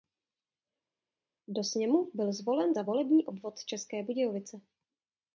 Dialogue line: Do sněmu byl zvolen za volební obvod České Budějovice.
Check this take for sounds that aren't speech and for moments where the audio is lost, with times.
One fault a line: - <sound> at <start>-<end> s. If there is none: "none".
none